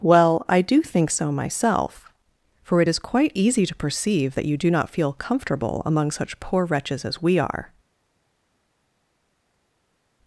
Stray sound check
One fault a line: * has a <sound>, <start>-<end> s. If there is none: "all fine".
all fine